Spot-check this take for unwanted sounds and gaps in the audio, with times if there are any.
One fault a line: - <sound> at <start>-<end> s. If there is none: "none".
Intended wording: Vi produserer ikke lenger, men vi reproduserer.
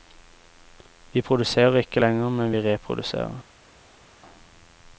none